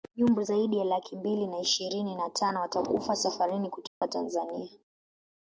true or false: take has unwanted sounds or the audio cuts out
true